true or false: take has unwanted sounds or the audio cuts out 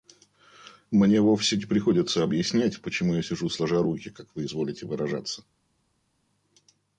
false